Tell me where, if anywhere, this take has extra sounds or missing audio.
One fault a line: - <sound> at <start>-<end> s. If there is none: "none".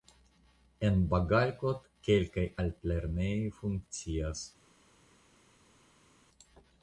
none